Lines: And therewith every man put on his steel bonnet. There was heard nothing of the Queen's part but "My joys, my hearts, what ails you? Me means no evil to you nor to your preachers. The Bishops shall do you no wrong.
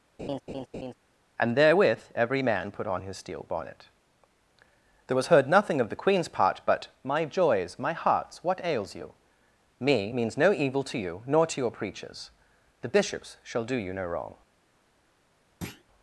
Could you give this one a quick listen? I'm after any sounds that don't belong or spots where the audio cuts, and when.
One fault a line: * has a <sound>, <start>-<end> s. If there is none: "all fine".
* has a laugh, 0.2-0.9 s
* has a thud, 15.6-15.8 s